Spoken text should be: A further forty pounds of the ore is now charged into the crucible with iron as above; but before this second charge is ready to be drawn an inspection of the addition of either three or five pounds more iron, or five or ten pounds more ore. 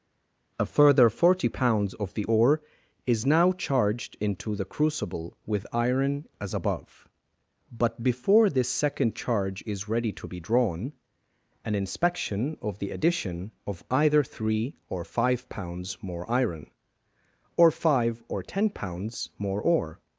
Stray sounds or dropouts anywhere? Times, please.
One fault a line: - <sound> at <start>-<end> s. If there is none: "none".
none